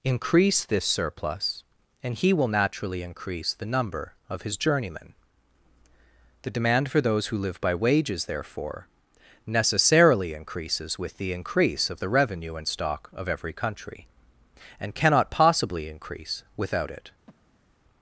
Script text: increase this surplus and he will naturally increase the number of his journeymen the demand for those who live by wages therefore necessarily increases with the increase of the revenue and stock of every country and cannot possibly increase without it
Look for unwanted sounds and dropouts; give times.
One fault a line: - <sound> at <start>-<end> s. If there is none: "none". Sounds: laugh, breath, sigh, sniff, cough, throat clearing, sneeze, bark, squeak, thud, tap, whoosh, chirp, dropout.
- breath at 17.3-17.8 s